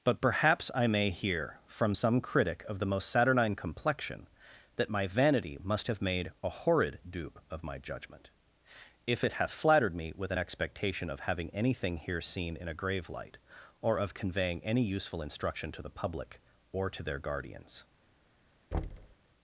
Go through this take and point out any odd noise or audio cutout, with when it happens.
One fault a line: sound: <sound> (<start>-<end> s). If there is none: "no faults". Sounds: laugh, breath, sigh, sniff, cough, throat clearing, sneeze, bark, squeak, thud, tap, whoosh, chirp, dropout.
sound: thud (18.7-19.2 s)